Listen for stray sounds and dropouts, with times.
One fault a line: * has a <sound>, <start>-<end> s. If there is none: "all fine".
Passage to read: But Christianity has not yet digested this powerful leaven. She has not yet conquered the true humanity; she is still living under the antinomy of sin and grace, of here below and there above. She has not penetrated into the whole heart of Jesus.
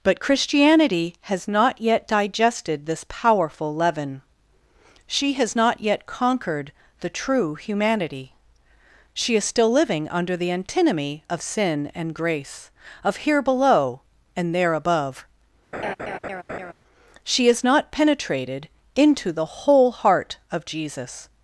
* has a laugh, 15.7-16.7 s